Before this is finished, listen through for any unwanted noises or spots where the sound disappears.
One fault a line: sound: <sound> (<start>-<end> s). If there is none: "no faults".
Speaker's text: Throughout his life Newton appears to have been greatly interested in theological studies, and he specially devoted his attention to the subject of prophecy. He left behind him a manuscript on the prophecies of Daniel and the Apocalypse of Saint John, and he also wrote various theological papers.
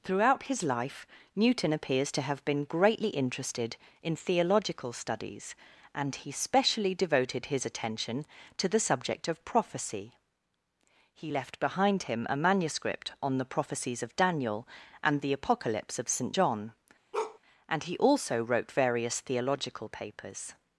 sound: bark (17.1-17.4 s)